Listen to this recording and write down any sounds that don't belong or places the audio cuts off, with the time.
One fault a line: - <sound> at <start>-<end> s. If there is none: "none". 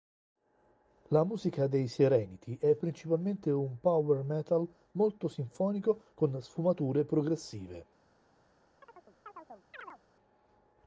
- chirp at 8.8-10.0 s